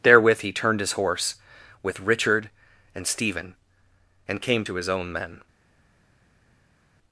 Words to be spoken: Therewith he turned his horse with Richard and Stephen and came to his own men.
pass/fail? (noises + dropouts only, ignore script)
pass